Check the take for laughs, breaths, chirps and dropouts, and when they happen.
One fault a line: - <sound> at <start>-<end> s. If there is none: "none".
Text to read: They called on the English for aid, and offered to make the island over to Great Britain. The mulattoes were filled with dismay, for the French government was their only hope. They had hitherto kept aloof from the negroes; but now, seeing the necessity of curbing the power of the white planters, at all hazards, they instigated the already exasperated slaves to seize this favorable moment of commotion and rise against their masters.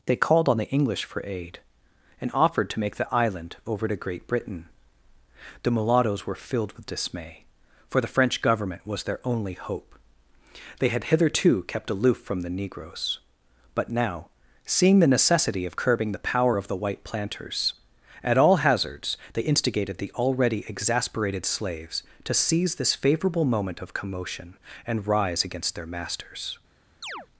- chirp at 27.0-27.3 s